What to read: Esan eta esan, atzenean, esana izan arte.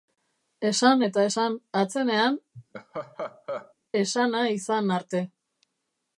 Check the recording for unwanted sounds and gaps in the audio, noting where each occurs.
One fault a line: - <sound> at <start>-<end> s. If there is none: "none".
- laugh at 2.5-3.7 s